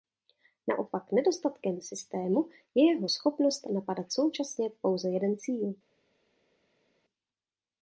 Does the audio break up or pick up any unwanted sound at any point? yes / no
no